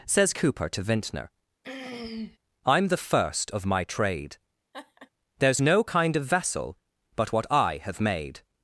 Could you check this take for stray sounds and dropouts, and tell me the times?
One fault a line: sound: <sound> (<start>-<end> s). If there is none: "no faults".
sound: throat clearing (1.6-2.4 s)
sound: laugh (4.7-5.1 s)